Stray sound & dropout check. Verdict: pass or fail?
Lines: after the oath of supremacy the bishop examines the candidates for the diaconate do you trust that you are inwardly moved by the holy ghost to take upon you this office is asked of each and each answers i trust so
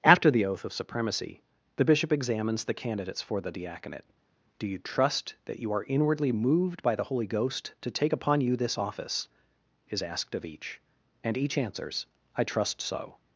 pass